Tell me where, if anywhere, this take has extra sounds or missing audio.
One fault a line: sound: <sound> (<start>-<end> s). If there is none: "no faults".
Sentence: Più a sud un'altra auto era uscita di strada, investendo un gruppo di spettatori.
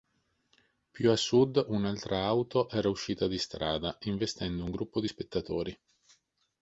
no faults